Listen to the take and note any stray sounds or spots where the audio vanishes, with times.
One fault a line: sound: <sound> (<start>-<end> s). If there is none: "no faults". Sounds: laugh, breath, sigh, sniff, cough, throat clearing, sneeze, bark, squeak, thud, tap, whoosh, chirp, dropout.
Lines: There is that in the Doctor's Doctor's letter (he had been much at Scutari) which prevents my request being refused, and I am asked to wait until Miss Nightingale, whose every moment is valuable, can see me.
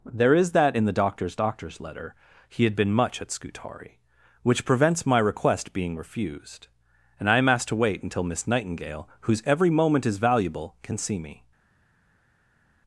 no faults